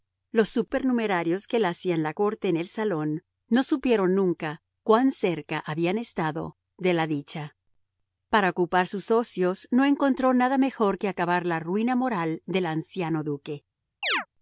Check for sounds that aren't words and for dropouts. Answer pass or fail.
fail